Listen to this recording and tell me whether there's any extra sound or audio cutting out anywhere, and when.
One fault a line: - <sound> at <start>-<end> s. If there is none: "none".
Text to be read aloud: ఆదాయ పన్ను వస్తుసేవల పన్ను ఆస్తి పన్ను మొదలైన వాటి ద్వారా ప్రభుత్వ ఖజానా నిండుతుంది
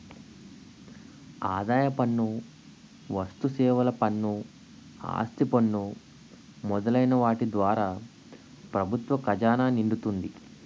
none